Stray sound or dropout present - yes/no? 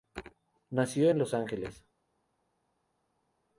no